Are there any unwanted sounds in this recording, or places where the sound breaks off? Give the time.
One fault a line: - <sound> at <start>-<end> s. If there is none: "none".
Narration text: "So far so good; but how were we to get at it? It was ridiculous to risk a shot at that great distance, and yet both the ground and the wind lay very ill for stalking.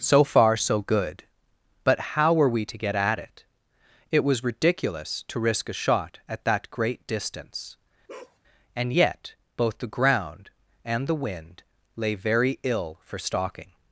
- bark at 8.1-8.4 s